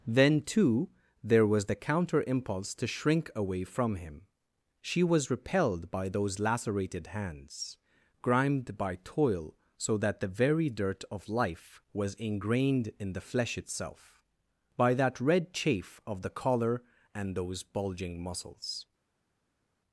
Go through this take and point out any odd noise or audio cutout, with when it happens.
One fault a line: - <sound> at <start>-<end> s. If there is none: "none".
none